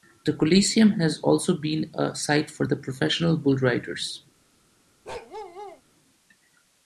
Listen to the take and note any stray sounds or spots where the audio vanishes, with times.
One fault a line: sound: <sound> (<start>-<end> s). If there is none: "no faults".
sound: bark (5.0-5.8 s)